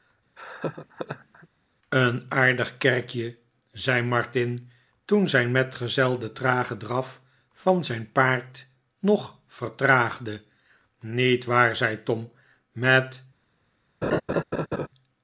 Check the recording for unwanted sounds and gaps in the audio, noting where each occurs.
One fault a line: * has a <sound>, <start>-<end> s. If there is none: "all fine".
* has a laugh, 0.4-1.5 s
* has a laugh, 14.0-14.9 s